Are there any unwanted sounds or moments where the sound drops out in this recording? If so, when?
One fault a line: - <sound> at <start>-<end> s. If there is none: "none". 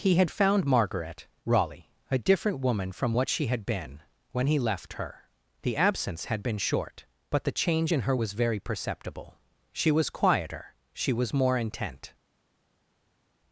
none